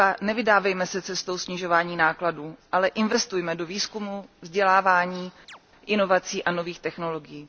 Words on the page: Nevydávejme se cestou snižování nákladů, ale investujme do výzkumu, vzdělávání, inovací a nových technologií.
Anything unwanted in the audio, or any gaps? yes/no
yes